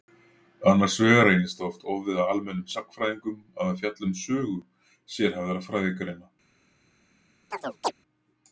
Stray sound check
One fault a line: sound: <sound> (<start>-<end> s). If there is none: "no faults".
sound: chirp (7.5-7.9 s)